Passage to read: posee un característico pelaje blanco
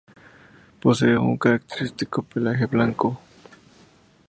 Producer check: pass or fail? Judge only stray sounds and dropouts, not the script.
pass